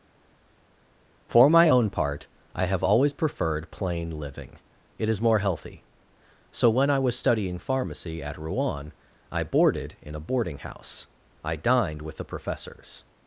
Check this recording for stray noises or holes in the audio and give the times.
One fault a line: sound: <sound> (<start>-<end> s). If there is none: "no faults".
no faults